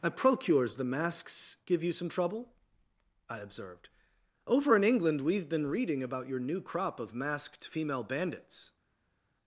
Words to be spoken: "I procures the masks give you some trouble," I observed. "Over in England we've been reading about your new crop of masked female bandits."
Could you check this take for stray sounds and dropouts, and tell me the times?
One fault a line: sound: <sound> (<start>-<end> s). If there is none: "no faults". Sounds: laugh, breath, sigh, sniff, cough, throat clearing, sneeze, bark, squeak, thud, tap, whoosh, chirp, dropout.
no faults